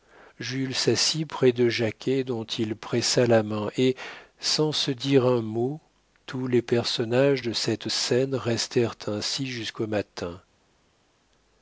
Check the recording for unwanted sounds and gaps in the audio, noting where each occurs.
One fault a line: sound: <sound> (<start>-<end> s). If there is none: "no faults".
no faults